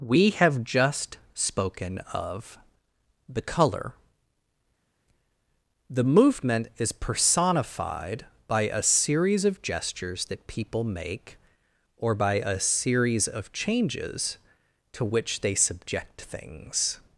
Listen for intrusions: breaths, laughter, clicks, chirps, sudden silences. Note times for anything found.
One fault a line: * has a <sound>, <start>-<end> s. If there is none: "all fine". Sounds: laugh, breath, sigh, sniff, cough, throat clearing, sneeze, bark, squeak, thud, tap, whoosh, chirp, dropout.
all fine